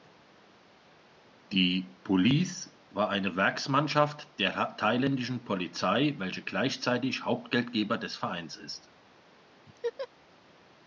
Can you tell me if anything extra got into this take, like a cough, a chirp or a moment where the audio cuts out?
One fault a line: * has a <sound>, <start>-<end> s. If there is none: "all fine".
* has a laugh, 9.7-10.1 s